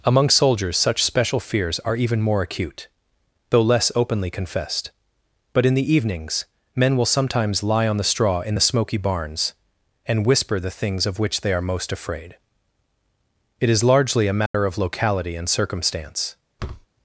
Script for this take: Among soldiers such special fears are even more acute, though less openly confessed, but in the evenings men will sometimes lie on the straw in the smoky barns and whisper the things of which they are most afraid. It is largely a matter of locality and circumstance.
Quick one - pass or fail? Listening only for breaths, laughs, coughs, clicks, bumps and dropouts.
fail